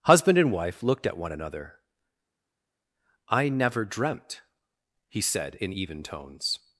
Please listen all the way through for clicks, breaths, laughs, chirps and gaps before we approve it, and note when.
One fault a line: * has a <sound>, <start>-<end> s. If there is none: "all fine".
all fine